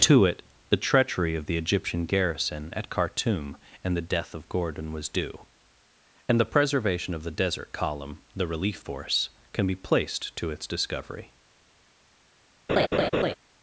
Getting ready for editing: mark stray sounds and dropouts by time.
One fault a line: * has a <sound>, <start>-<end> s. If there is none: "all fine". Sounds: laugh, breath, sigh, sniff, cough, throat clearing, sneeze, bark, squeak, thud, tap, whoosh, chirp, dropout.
* has a laugh, 12.7-13.3 s